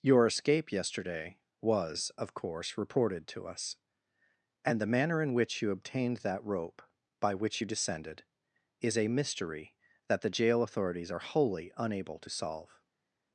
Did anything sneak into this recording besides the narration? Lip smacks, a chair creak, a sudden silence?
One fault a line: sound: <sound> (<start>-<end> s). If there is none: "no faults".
no faults